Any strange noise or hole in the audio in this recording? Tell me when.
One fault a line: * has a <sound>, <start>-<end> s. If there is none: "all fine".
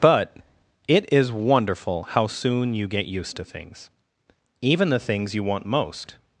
all fine